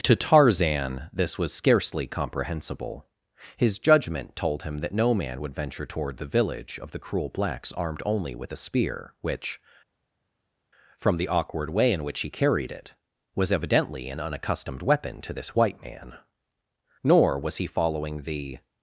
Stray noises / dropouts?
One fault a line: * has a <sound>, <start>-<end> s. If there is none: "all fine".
all fine